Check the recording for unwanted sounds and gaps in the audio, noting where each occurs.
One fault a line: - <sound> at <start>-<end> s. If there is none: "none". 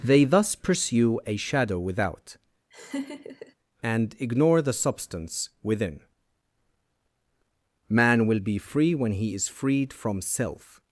- laugh at 2.7-3.6 s